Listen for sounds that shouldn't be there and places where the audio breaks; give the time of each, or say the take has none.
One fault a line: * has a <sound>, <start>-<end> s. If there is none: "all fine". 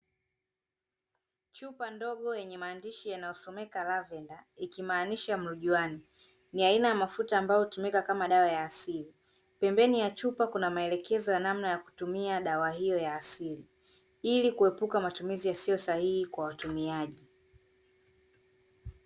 all fine